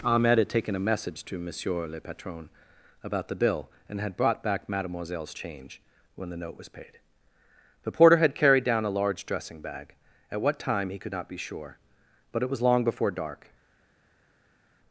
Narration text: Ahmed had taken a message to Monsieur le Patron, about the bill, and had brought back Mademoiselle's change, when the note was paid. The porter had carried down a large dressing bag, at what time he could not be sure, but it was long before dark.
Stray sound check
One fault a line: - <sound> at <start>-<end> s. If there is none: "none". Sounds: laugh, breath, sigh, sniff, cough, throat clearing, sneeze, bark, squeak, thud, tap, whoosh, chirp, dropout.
none